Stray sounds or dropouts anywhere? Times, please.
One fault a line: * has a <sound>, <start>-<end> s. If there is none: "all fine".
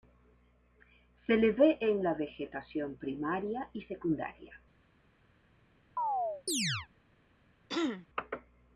* has a chirp, 6.0-6.9 s
* has a throat clearing, 7.7-8.1 s